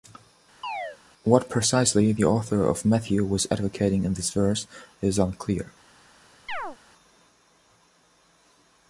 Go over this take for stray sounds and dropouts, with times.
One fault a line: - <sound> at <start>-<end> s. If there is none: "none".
- chirp at 0.6-1.0 s
- chirp at 6.5-6.8 s